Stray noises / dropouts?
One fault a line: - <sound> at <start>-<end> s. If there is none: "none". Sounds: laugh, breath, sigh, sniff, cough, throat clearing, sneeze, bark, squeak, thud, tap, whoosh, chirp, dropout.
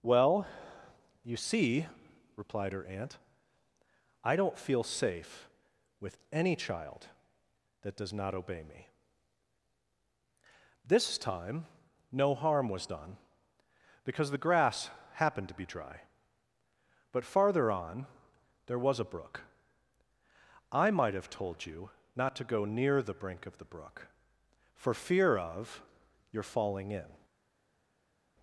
none